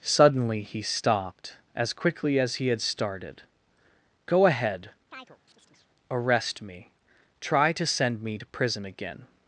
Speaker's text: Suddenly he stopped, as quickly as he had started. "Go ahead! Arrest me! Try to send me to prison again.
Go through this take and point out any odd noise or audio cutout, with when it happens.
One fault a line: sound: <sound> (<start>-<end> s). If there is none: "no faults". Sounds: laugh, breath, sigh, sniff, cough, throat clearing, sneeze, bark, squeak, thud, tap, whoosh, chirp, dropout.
sound: chirp (5.1-5.9 s)